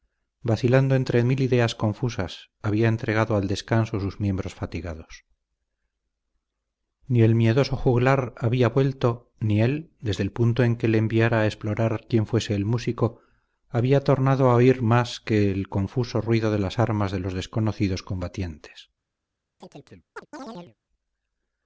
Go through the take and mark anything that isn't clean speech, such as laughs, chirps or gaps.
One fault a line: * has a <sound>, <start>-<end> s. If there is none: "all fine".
* has a chirp, 19.6-20.8 s